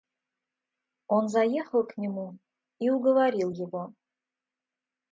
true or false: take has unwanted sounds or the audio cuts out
false